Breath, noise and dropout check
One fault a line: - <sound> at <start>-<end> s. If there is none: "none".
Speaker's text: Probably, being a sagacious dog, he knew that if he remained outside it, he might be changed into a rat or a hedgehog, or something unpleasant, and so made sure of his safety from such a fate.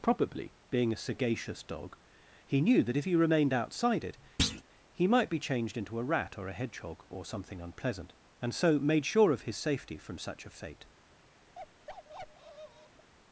- thud at 4.4-4.6 s
- bark at 11.5-13.1 s